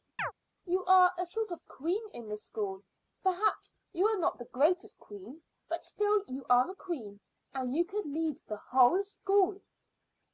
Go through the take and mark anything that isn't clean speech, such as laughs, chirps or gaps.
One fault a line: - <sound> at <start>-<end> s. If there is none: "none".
- chirp at 0.2-0.3 s